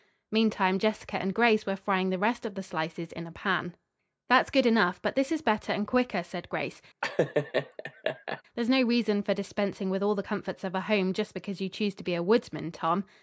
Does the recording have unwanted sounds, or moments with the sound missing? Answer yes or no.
yes